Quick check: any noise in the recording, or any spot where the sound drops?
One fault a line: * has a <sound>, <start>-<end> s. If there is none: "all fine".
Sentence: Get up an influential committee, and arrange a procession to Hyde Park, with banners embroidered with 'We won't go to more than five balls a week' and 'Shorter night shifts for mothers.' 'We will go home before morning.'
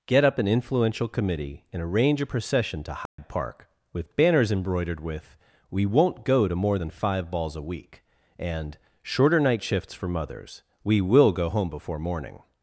* has a dropout, 3.1-3.2 s